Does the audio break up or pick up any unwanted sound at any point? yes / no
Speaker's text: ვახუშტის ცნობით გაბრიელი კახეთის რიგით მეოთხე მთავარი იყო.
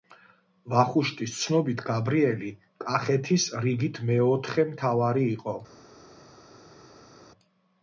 no